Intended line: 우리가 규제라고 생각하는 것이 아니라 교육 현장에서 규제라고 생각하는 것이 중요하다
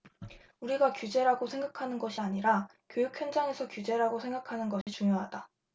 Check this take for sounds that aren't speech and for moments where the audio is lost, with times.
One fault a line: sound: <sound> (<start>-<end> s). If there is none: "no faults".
sound: dropout (4.8-4.9 s)